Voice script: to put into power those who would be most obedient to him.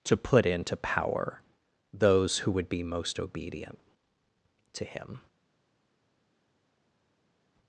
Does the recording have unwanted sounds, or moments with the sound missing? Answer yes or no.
no